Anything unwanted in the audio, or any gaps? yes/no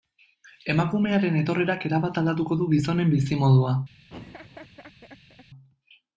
yes